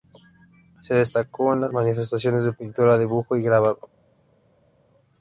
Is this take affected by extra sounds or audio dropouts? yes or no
no